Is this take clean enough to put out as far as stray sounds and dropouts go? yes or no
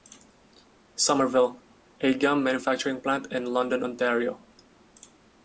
yes